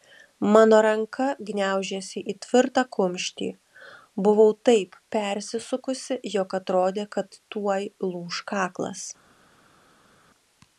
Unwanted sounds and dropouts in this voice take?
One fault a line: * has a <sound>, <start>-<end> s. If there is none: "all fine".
all fine